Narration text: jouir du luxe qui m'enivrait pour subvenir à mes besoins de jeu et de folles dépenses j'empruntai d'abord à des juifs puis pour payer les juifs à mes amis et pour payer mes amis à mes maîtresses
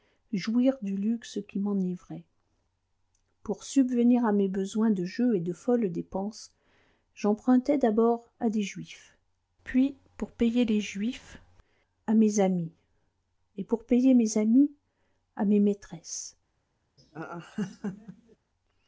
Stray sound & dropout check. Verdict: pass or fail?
fail